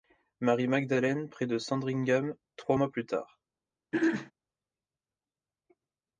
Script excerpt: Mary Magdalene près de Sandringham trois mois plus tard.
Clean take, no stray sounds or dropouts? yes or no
no